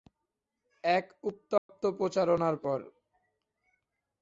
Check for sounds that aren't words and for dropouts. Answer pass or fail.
fail